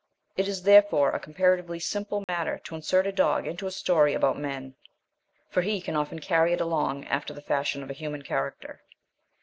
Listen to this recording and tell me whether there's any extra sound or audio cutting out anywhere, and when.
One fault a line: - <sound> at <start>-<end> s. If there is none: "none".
- dropout at 2.2-2.3 s